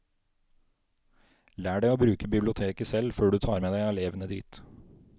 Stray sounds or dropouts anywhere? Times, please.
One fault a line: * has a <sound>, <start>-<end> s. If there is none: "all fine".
all fine